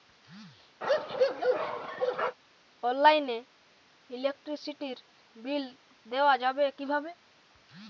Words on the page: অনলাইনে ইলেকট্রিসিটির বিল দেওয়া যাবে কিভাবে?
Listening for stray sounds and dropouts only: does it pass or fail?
fail